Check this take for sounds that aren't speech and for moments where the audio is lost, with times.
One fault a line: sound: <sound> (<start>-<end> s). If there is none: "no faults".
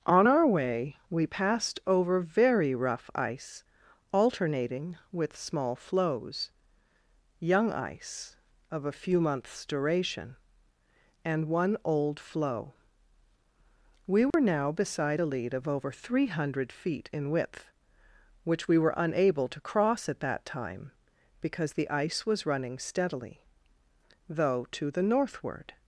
sound: dropout (14.3-14.3 s)